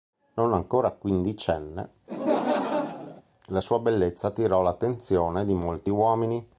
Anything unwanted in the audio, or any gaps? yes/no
yes